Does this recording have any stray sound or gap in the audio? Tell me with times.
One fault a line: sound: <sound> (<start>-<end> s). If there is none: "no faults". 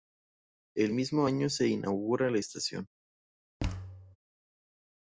sound: thud (3.6-4.2 s)